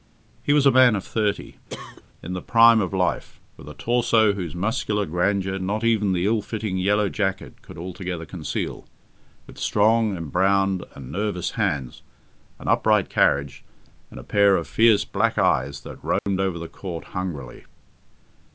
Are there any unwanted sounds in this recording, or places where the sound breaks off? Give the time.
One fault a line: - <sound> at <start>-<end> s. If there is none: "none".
- cough at 1.7-2.0 s
- dropout at 16.2-16.3 s